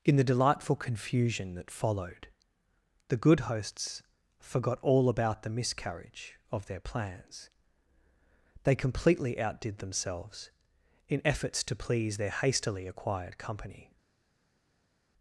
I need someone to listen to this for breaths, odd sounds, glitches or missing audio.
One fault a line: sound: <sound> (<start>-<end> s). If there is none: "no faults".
no faults